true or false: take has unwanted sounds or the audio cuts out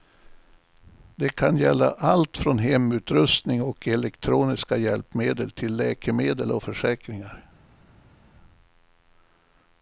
false